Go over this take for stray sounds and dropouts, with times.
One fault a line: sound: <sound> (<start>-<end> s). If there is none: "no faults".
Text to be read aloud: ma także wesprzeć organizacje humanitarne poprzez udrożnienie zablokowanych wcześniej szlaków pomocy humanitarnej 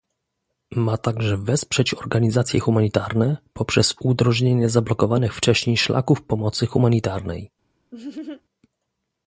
sound: laugh (7.9-8.4 s)